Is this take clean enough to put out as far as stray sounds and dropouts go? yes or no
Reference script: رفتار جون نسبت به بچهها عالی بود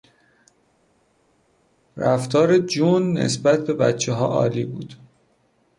yes